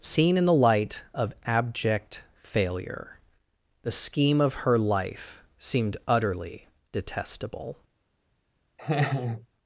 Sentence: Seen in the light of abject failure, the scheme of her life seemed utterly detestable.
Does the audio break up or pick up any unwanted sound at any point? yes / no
yes